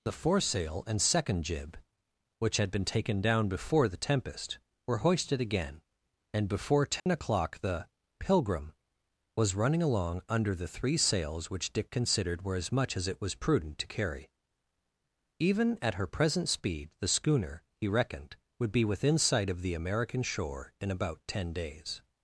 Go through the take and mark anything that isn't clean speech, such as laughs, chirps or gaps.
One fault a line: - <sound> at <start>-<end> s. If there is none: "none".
- dropout at 7.0-7.1 s